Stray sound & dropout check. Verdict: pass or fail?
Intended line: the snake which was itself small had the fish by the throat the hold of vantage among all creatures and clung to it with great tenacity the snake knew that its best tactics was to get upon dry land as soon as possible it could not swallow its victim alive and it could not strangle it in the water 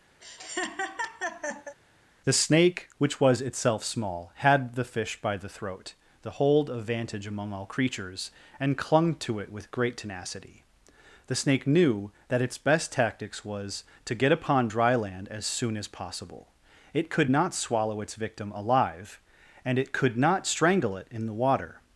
fail